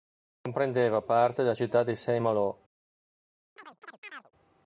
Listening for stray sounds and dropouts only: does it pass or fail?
fail